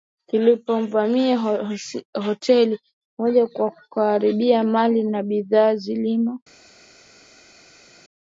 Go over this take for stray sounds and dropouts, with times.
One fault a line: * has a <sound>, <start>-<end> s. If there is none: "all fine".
all fine